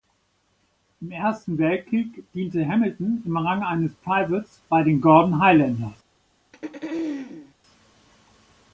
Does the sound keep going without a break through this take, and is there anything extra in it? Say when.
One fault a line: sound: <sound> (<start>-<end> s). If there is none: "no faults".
sound: throat clearing (6.5-7.5 s)